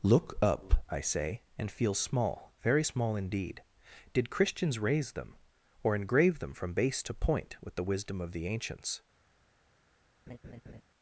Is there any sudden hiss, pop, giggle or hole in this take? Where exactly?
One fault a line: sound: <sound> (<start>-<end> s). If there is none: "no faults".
sound: laugh (10.3-10.8 s)